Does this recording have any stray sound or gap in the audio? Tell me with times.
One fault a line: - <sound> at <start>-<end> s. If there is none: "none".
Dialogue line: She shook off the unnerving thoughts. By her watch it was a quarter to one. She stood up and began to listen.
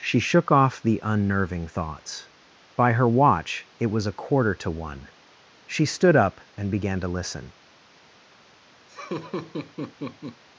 - laugh at 8.9-10.4 s